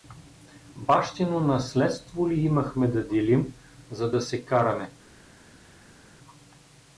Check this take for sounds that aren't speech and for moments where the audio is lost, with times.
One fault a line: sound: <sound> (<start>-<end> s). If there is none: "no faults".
no faults